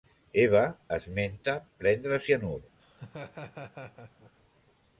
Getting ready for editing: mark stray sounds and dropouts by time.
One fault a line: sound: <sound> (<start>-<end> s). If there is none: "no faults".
sound: laugh (2.8-4.3 s)